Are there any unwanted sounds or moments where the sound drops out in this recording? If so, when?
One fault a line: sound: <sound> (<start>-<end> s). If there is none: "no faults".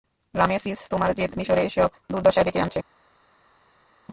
no faults